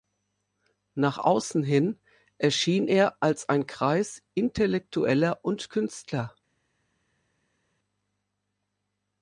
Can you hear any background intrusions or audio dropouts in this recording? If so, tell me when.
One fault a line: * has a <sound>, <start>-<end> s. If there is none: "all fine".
all fine